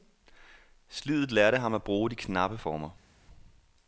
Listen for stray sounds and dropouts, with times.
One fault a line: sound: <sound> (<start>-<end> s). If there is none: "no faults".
no faults